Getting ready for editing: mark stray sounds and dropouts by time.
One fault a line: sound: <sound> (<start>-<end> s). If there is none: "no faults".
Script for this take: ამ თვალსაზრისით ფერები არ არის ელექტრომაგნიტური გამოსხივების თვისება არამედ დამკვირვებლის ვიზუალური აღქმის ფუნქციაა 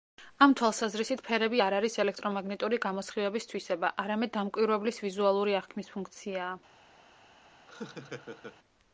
sound: laugh (7.7-8.6 s)